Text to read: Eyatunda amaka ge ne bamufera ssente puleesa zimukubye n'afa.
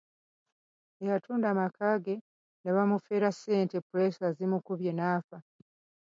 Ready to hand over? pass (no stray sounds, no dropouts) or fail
pass